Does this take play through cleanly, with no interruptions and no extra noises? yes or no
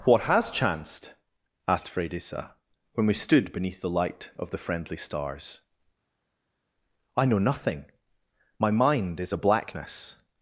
yes